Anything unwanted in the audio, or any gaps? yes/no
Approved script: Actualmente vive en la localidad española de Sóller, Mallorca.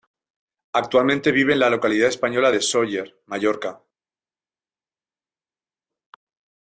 no